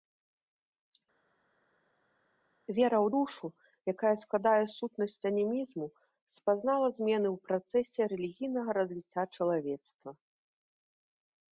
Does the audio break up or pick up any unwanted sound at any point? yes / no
no